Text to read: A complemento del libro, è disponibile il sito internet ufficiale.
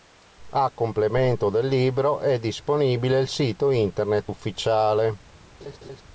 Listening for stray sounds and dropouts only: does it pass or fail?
fail